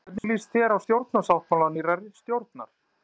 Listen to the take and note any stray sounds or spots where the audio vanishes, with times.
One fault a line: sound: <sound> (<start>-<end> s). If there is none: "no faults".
sound: dropout (0.2-0.2 s)